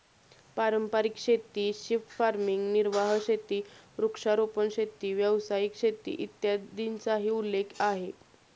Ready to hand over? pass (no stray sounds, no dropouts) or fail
pass